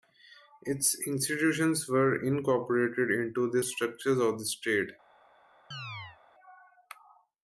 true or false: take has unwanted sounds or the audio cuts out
true